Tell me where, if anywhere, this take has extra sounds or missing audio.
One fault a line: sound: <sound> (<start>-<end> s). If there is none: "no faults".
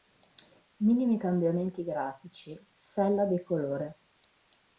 no faults